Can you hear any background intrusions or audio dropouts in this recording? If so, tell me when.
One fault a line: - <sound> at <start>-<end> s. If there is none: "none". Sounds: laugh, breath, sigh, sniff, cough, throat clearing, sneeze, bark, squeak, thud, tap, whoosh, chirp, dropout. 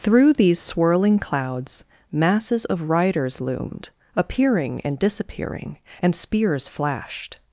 none